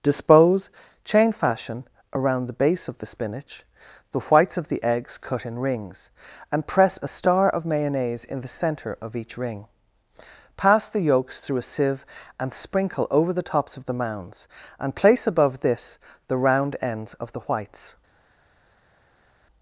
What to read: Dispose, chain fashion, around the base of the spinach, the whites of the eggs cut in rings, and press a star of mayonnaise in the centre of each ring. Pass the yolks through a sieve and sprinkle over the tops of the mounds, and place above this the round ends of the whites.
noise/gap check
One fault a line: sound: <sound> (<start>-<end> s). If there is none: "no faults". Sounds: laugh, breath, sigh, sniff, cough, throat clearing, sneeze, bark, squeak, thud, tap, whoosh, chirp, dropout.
no faults